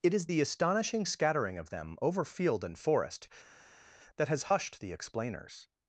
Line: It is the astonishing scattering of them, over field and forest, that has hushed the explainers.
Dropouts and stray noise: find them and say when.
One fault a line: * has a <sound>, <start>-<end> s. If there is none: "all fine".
all fine